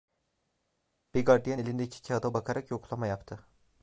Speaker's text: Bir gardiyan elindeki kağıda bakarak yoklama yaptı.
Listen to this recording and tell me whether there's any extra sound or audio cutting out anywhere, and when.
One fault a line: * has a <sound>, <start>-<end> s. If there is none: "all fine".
all fine